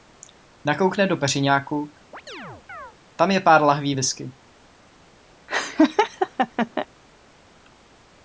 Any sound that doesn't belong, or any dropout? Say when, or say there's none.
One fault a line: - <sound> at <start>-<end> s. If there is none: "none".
- chirp at 2.1-2.9 s
- laugh at 5.5-6.9 s